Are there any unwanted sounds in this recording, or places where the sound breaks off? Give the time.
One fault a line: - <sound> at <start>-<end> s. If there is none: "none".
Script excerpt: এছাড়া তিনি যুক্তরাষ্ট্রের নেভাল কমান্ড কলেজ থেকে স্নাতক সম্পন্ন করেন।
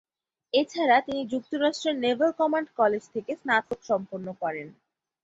- dropout at 3.6-3.7 s